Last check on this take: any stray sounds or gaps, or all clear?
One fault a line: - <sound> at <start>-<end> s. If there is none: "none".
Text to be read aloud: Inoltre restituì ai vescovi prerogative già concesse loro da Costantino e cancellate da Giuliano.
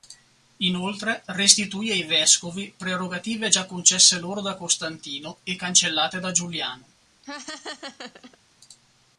- laugh at 7.2-8.4 s